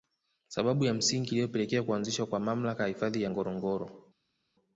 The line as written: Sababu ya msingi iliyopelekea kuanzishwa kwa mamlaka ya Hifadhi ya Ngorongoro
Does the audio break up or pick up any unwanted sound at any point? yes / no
no